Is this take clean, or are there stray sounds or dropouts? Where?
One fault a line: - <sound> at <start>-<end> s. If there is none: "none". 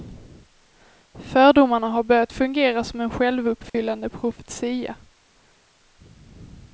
- dropout at 3.7-3.7 s